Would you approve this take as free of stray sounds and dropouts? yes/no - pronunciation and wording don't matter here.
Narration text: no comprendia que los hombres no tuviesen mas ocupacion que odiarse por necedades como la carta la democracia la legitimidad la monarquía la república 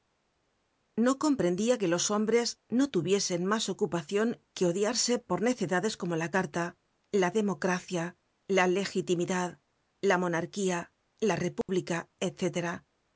no